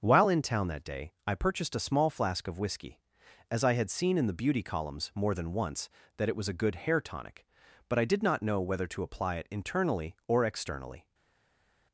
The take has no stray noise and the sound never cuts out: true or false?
true